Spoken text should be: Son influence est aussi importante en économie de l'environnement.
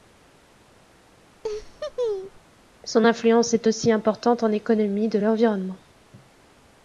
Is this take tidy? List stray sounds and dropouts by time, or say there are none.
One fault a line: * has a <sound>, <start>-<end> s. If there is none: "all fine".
* has a laugh, 1.4-2.4 s